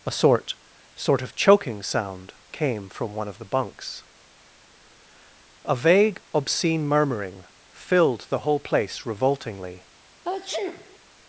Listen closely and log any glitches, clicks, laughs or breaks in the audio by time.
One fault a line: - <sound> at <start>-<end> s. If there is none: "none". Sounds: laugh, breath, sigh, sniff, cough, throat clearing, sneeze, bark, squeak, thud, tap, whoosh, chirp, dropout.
- sneeze at 10.2-11.0 s